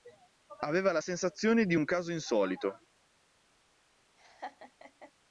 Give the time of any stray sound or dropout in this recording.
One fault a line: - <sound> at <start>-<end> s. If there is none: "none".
- laugh at 4.2-5.1 s